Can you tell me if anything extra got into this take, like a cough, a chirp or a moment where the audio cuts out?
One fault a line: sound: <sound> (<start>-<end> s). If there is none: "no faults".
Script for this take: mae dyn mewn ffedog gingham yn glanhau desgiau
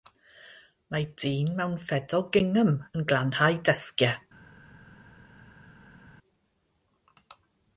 no faults